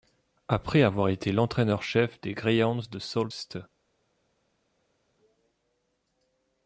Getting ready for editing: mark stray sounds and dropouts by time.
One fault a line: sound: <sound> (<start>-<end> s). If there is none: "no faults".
no faults